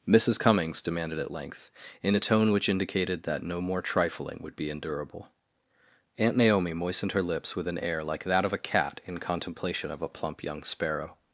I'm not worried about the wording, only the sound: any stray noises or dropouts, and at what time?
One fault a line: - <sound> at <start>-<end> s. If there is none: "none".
none